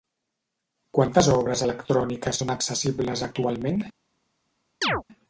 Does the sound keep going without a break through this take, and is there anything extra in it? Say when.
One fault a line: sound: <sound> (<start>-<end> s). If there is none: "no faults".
sound: chirp (4.8-5.0 s)